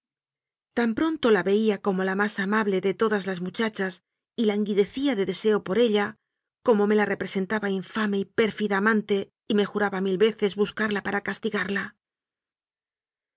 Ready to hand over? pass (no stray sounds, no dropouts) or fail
pass